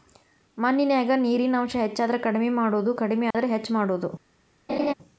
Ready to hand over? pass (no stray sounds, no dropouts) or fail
fail